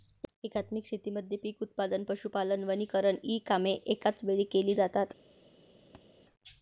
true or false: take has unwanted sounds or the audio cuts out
true